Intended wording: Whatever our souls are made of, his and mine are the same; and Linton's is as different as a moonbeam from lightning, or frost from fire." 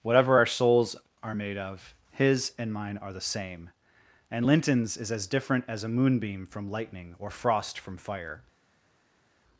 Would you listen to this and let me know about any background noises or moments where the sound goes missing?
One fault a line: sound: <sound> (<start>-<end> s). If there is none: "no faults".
no faults